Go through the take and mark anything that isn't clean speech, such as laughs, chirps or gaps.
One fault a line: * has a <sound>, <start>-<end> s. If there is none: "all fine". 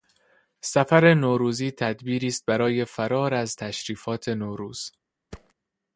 * has a thud, 5.3-5.5 s